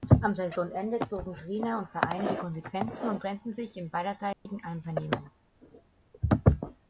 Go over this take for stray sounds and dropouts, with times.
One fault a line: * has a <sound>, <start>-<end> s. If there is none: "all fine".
* has a dropout, 4.3-4.5 s